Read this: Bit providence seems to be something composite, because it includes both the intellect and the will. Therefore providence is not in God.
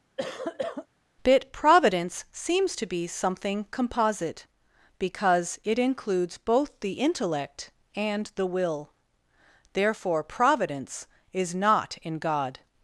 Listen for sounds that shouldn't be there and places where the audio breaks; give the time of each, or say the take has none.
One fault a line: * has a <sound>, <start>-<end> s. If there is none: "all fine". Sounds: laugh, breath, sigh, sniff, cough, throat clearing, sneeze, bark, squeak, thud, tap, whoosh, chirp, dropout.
* has a cough, 0.2-0.9 s